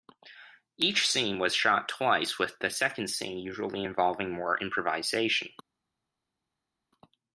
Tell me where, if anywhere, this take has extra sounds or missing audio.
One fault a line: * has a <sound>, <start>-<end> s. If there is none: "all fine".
all fine